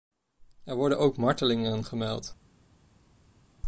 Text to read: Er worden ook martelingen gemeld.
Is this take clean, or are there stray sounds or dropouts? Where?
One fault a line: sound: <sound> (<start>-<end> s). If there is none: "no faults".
no faults